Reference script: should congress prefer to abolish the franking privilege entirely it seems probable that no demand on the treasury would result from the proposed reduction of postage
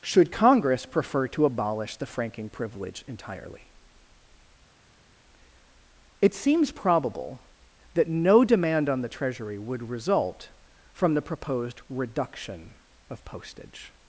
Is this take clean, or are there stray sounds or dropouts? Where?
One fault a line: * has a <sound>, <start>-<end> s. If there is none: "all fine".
all fine